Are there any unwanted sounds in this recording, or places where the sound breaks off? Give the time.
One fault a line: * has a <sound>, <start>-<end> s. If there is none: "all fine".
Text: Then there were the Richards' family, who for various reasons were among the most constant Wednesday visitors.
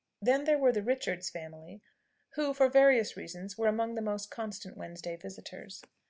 all fine